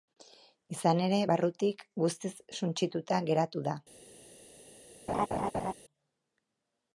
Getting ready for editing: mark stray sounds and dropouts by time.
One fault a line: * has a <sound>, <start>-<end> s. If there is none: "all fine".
* has a laugh, 5.1-5.7 s